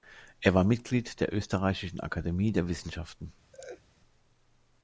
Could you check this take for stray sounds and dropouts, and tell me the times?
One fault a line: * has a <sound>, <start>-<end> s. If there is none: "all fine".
* has a laugh, 3.5-3.8 s